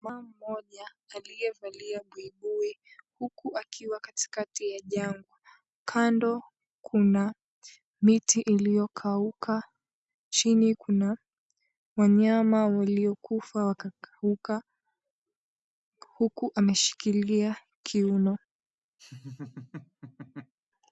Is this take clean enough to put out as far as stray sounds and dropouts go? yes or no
no